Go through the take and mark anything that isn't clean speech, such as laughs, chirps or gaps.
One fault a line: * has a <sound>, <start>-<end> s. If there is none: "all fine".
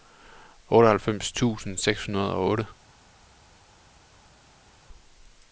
all fine